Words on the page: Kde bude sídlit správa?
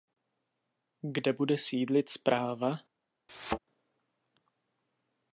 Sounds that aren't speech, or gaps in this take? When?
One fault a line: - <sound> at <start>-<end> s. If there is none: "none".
- thud at 3.3-3.6 s